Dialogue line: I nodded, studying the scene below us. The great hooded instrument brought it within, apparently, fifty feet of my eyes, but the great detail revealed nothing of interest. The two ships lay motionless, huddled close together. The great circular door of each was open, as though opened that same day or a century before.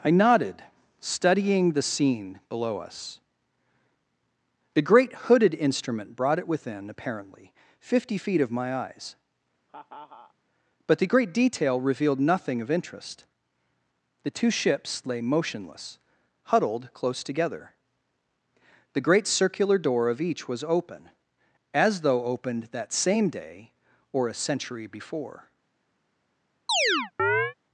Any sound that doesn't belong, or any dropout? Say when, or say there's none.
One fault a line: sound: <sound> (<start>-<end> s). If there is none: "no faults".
sound: laugh (9.7-10.3 s)
sound: chirp (26.7-27.5 s)